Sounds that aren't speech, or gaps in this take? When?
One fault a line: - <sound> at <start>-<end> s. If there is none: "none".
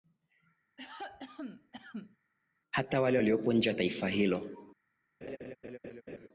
- cough at 0.8-2.2 s
- laugh at 5.2-6.3 s